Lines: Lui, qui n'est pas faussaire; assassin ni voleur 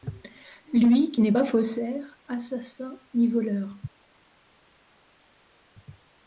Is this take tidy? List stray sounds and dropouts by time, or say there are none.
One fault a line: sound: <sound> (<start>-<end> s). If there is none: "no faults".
no faults